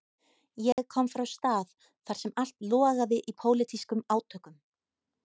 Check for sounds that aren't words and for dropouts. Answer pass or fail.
fail